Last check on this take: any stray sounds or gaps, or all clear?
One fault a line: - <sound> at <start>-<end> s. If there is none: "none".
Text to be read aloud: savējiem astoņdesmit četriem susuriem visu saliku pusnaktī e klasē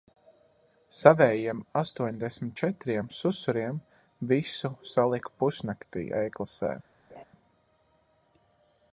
- laugh at 7.1-7.2 s